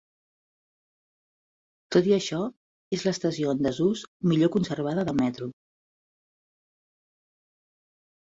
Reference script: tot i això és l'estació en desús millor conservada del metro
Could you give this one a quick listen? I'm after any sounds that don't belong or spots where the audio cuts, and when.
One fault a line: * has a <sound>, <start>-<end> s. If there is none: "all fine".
all fine